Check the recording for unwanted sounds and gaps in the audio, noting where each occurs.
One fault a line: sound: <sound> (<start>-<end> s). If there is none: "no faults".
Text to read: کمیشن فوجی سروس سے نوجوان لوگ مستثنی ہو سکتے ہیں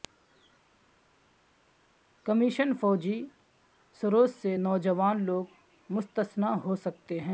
no faults